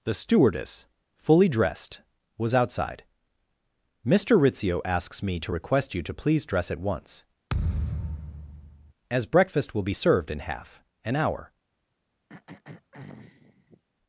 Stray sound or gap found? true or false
true